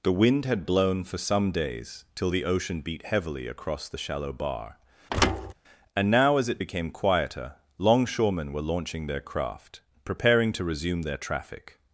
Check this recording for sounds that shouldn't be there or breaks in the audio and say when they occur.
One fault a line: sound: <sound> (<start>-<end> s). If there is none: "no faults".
sound: thud (5.1-5.5 s)